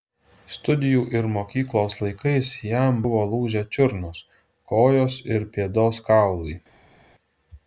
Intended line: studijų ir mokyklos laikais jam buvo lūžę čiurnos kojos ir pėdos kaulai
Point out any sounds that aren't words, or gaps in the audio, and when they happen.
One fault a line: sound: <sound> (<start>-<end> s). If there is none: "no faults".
no faults